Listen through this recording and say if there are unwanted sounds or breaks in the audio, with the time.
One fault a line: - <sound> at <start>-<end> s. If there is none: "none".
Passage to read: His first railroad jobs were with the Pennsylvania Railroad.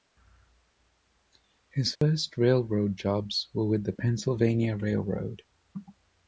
- dropout at 2.0-2.0 s